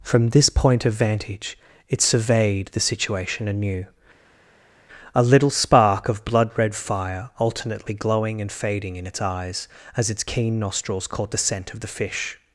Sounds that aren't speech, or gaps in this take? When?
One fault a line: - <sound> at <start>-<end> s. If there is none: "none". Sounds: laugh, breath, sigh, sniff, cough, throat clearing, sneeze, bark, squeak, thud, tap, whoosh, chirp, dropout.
none